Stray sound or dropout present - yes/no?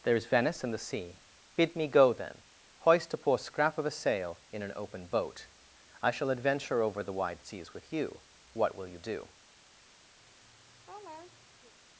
yes